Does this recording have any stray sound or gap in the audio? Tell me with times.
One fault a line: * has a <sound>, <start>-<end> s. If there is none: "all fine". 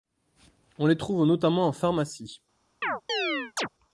* has a chirp, 2.8-3.7 s